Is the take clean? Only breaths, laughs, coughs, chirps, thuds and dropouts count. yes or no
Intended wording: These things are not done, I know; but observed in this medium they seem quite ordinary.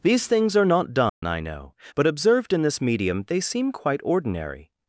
no